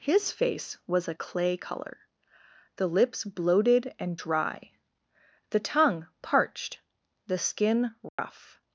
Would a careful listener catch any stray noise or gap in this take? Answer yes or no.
yes